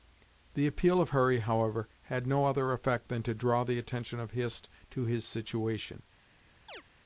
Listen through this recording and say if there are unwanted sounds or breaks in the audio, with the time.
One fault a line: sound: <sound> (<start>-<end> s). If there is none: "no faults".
sound: chirp (6.7-6.8 s)